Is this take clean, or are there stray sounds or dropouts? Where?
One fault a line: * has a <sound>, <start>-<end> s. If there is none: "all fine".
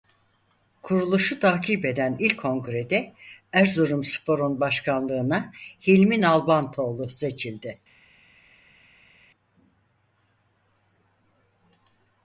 all fine